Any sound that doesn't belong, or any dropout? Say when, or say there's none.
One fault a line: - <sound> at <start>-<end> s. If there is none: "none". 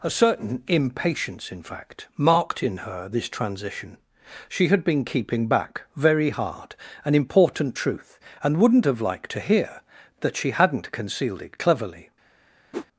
- whoosh at 12.7-12.9 s